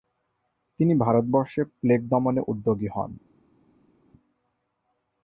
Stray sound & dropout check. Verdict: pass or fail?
pass